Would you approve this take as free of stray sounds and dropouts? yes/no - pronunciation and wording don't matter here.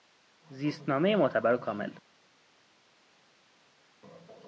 yes